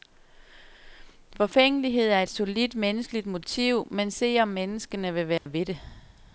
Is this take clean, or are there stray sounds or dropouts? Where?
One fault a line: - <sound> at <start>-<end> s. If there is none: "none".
- dropout at 5.4-5.5 s